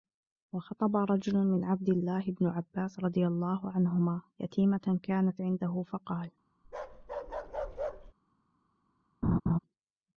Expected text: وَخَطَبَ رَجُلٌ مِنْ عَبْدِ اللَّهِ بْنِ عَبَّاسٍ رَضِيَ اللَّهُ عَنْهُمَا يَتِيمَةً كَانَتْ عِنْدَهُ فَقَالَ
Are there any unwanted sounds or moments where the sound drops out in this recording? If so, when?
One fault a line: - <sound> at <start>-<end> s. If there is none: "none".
- bark at 6.6-8.1 s
- laugh at 9.2-9.6 s